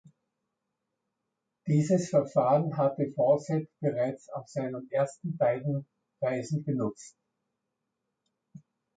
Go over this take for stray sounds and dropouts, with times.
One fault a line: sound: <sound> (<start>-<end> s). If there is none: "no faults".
no faults